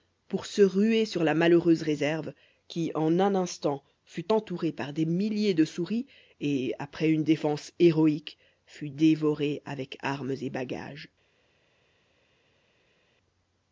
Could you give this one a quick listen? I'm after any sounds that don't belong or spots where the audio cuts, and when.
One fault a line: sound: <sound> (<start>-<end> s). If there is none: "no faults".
no faults